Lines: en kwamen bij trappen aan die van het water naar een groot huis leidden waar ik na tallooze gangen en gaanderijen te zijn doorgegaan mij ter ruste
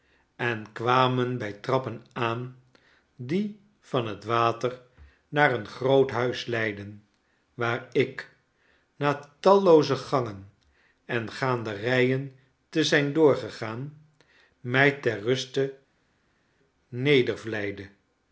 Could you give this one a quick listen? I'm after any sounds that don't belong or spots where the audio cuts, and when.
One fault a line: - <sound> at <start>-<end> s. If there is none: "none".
none